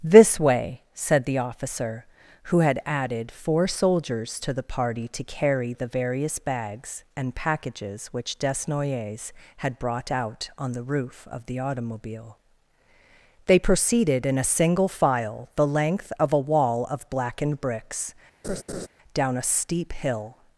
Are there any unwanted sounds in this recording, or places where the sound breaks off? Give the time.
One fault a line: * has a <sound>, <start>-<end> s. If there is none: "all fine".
* has a laugh, 18.4-18.9 s